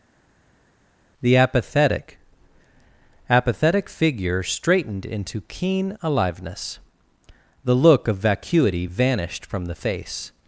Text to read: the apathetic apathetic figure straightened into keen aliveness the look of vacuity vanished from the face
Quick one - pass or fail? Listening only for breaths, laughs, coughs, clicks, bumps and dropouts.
pass